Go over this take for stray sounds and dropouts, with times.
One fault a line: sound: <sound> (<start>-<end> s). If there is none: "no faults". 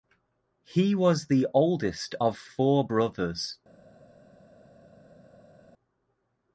no faults